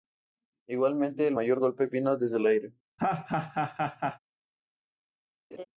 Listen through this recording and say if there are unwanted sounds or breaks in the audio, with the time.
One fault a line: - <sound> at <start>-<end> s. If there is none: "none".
- laugh at 3.0-4.2 s
- laugh at 5.5-5.6 s